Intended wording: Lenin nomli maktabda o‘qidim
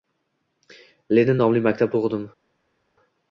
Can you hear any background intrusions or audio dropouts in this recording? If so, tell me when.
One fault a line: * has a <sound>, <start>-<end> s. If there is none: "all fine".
all fine